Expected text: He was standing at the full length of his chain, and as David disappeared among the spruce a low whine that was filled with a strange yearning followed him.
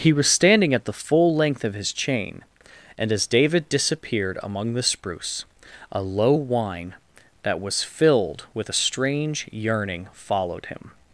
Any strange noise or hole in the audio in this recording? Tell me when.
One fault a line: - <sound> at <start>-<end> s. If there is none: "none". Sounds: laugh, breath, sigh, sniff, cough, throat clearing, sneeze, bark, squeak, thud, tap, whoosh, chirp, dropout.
none